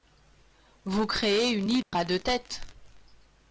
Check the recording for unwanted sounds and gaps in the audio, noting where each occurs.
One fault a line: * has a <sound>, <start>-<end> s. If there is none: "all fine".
* has a dropout, 1.8-1.9 s